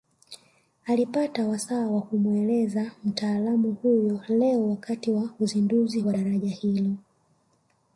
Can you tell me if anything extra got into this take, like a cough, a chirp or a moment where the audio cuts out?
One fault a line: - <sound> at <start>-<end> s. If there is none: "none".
none